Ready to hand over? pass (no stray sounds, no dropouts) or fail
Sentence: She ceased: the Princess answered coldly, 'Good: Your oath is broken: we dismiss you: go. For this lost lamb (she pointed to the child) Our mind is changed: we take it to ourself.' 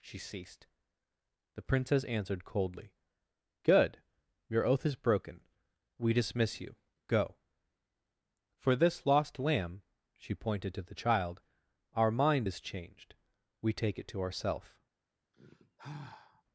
fail